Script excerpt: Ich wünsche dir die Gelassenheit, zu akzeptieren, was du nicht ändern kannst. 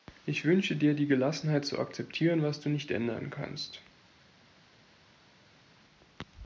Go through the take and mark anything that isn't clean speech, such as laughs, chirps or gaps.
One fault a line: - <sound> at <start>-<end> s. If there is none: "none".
none